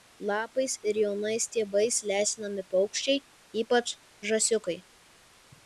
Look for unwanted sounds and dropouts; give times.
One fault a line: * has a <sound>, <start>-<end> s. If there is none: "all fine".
all fine